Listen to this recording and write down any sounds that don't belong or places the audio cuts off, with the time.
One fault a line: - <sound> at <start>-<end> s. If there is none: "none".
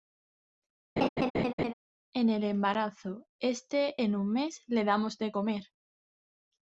- laugh at 1.0-1.7 s